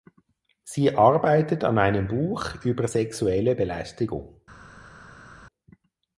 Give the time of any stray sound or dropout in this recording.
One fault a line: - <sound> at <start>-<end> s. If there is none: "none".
none